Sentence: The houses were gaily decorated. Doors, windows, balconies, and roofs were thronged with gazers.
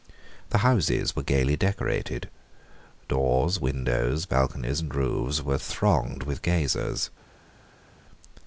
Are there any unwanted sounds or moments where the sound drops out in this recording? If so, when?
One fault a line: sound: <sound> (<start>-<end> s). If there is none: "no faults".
no faults